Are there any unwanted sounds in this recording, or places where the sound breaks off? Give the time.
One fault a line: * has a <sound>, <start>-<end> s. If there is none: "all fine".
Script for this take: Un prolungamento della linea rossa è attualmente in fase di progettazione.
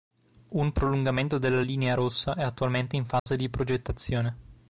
* has a dropout, 3.2-3.3 s